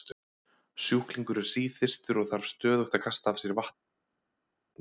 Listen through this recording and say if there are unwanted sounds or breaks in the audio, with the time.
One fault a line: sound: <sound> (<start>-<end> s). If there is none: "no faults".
no faults